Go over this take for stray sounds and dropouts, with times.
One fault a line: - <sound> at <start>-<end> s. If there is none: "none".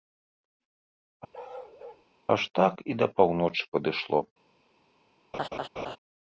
- bark at 1.3-2.0 s
- laugh at 5.3-6.0 s